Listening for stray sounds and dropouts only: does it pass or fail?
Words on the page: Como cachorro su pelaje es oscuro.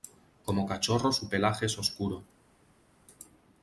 pass